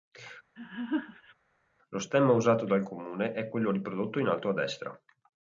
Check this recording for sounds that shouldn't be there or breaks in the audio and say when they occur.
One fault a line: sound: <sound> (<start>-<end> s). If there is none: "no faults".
sound: laugh (0.6-1.3 s)